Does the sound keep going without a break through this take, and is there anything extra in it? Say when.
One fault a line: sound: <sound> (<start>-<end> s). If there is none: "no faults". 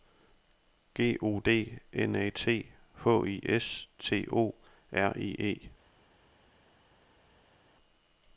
no faults